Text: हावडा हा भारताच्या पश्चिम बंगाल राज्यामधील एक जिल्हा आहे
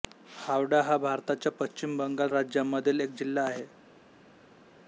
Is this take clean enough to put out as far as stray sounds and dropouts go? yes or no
yes